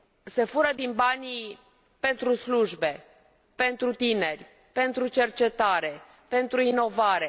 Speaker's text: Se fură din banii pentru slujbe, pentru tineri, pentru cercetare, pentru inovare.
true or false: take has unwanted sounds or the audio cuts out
false